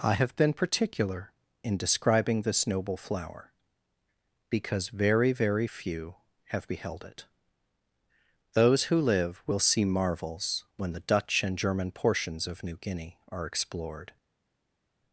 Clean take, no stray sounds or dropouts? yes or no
yes